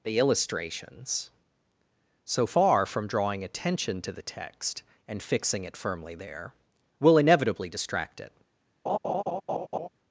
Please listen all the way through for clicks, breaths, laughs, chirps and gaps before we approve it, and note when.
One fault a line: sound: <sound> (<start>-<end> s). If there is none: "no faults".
sound: laugh (8.9-9.9 s)